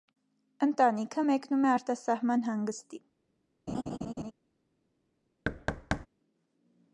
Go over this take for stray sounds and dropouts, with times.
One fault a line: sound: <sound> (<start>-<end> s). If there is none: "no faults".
sound: laugh (3.7-4.3 s)
sound: thud (5.4-6.1 s)